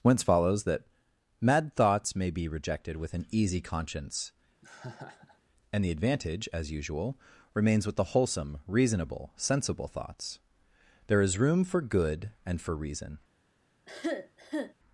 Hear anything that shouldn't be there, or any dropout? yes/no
yes